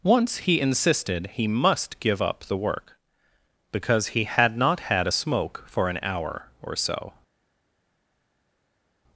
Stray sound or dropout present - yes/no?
no